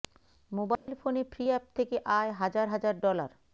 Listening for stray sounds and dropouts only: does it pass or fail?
fail